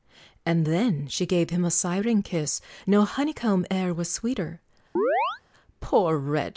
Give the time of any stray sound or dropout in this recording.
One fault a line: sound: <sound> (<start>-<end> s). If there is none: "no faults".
sound: chirp (5.0-5.4 s)